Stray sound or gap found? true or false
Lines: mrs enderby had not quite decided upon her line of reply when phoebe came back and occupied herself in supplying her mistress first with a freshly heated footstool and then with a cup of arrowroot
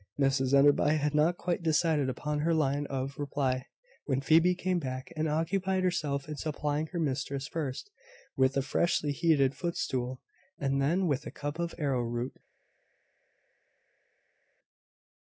false